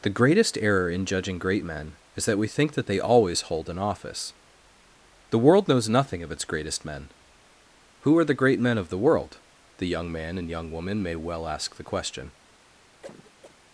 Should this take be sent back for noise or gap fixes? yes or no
yes